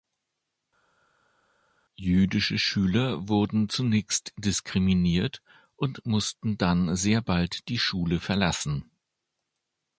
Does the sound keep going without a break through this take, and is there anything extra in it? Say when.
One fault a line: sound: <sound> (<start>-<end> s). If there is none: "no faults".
no faults